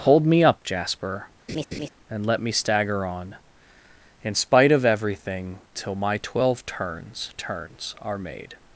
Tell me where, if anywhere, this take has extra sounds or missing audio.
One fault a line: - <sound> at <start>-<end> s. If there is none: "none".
- laugh at 1.5-1.9 s